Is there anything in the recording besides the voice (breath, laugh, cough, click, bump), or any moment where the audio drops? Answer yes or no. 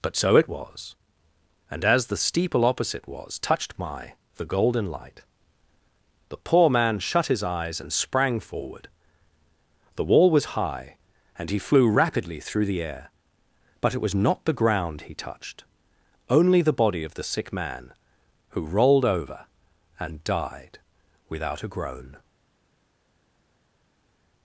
no